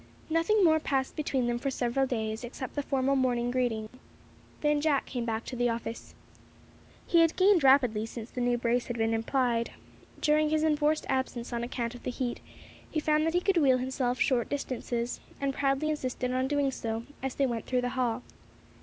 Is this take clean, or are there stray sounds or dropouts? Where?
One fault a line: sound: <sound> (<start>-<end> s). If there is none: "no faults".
sound: dropout (3.9-3.9 s)